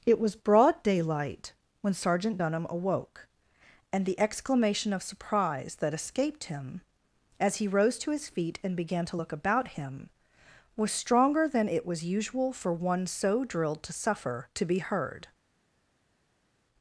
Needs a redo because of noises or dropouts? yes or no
no